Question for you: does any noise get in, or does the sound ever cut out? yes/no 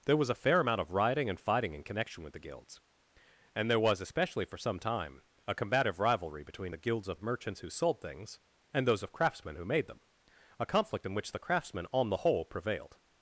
no